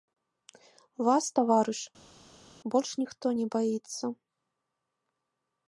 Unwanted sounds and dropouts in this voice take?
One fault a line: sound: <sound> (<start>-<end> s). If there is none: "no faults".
no faults